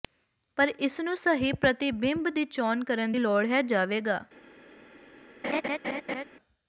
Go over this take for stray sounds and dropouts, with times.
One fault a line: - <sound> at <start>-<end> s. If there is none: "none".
- laugh at 5.4-6.2 s